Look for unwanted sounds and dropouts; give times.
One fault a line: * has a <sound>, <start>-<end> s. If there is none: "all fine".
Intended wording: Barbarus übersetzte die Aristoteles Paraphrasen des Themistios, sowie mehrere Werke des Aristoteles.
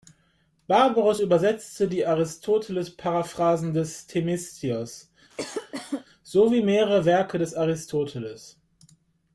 * has a cough, 5.3-6.1 s